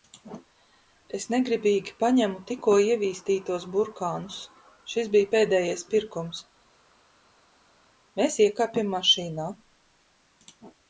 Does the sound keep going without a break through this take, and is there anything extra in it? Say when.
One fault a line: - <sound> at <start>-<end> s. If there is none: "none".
none